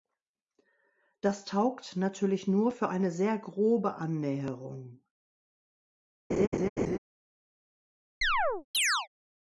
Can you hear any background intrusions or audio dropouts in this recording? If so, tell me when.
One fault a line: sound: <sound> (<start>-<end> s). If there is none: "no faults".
sound: laugh (6.3-7.0 s)
sound: chirp (8.2-9.1 s)